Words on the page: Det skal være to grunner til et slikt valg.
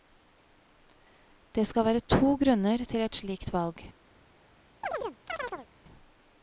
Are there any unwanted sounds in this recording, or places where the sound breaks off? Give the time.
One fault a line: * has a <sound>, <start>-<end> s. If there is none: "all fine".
* has a chirp, 4.8-5.7 s